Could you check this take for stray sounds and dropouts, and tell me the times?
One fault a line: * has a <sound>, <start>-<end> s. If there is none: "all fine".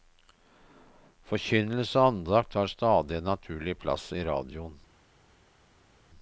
all fine